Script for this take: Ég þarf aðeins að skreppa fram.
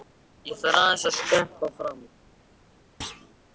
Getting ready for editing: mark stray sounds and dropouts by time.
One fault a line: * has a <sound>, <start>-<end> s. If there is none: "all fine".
* has a thud, 3.0-3.3 s